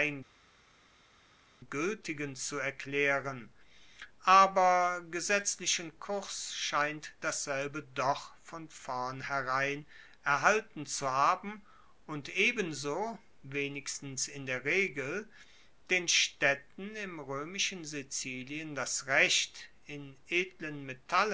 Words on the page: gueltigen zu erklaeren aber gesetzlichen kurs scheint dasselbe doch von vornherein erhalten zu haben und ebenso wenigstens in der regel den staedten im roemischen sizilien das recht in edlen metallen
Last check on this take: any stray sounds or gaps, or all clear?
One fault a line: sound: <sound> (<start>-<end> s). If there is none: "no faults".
no faults